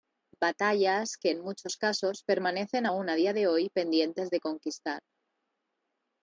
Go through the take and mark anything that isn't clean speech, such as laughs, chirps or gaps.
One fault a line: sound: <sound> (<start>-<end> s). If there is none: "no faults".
no faults